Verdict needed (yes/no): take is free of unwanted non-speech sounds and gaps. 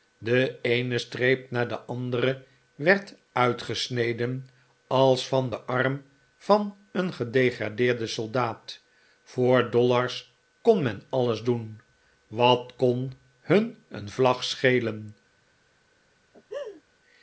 no